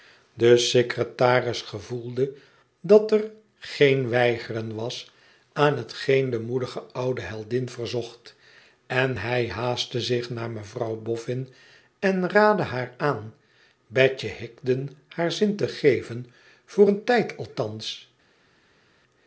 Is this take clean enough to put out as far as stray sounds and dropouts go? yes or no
yes